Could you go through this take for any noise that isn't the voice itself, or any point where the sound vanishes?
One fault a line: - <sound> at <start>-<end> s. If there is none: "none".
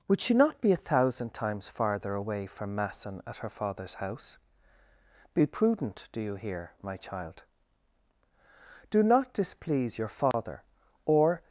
- dropout at 10.3-10.3 s